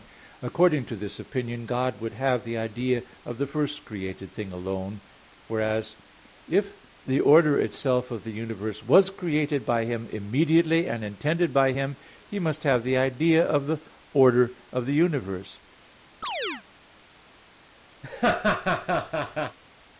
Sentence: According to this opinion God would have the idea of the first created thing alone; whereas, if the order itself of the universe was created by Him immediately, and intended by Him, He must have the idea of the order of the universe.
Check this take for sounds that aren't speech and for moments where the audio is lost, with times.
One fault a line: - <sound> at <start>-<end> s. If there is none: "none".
- chirp at 16.2-16.6 s
- laugh at 18.0-19.6 s